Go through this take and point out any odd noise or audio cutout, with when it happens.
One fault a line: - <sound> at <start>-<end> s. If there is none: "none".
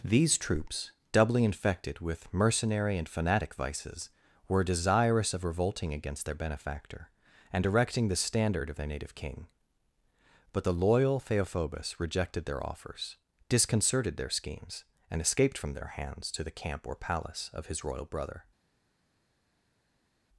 none